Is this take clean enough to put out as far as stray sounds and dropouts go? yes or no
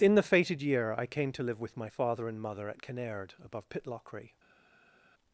yes